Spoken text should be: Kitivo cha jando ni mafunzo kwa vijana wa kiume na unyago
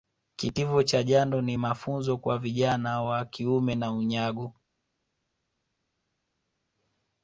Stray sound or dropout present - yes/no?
no